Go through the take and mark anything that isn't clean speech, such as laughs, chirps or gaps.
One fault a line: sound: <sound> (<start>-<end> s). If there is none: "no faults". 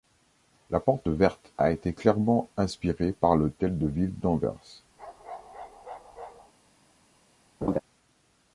sound: bark (5.0-6.5 s)
sound: laugh (7.6-7.8 s)